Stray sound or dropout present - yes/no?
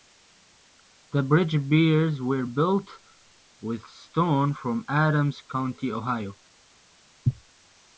no